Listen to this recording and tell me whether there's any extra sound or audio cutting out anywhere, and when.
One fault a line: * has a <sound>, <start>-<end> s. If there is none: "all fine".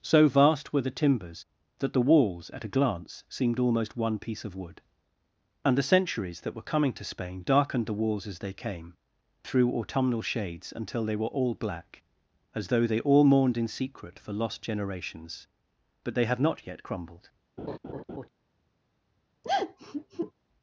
* has a laugh, 17.6-18.3 s
* has a sigh, 19.4-20.3 s